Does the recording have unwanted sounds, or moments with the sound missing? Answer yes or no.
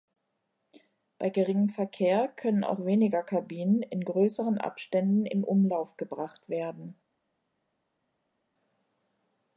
no